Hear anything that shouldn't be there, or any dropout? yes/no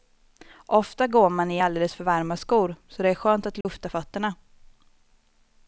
yes